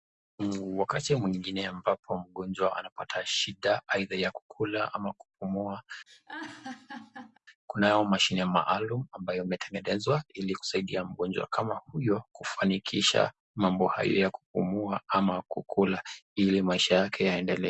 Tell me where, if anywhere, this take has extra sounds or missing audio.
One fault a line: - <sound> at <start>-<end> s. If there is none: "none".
- laugh at 6.1-7.4 s